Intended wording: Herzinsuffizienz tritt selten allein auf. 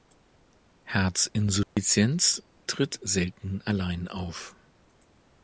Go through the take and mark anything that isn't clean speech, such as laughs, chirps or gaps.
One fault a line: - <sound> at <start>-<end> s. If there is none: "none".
- dropout at 1.6-1.8 s